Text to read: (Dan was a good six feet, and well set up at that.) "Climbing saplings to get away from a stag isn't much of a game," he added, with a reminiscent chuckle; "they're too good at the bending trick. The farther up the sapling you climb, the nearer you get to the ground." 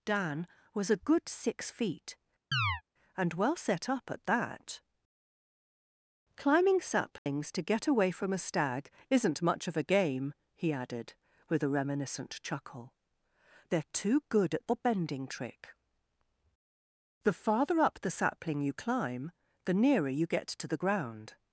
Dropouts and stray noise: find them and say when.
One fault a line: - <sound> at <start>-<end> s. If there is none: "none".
- chirp at 2.5-2.8 s
- dropout at 7.2-7.3 s